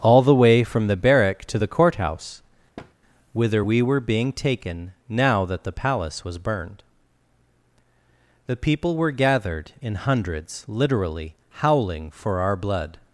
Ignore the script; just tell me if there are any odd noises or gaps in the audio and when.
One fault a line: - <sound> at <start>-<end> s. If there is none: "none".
- thud at 2.8-2.9 s